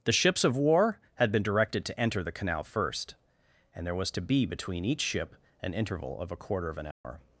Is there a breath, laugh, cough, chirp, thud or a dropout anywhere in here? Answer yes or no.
yes